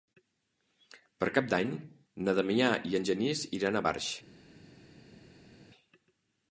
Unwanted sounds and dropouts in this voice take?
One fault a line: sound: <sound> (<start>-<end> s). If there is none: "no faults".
no faults